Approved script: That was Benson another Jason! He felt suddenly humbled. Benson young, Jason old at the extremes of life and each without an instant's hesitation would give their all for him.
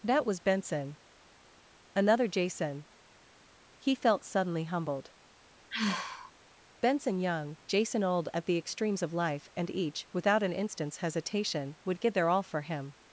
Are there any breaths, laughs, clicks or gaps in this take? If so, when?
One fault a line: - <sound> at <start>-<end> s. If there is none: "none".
- sigh at 5.7-6.3 s